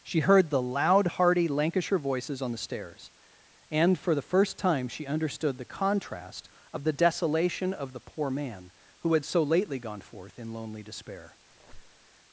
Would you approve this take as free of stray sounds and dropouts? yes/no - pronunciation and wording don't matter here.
no